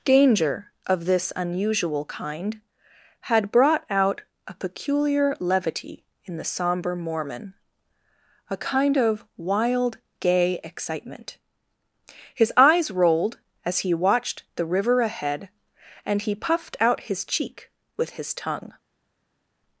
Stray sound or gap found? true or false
false